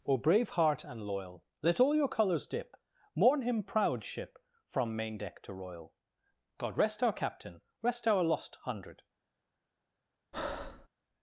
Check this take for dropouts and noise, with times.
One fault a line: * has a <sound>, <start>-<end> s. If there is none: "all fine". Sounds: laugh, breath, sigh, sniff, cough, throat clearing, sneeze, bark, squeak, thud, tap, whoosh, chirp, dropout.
* has a breath, 10.3-10.9 s